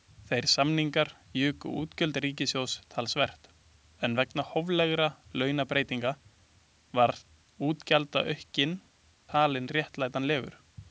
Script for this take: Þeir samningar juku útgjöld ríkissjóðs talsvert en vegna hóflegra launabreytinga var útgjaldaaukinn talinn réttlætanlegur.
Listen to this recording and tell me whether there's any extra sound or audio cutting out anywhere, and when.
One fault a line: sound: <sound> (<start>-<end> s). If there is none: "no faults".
no faults